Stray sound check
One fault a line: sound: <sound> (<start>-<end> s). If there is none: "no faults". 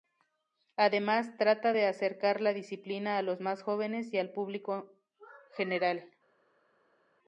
no faults